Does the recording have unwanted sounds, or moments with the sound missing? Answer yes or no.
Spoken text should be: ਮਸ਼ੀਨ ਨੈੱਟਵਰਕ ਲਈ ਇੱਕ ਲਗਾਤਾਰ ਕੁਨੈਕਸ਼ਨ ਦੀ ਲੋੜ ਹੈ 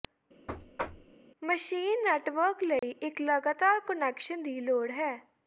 yes